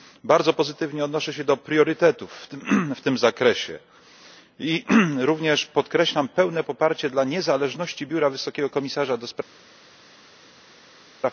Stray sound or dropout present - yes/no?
no